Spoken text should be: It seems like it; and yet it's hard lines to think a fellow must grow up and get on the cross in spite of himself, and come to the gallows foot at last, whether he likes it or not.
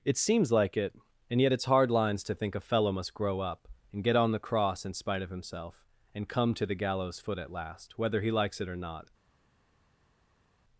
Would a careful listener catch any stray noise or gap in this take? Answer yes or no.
no